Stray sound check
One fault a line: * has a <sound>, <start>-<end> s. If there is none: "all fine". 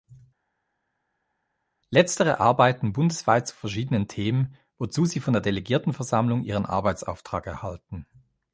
all fine